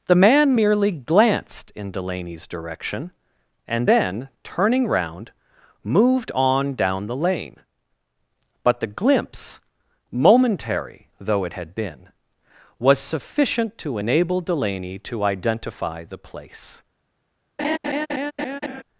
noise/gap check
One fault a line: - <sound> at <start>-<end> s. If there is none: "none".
- laugh at 17.6-18.8 s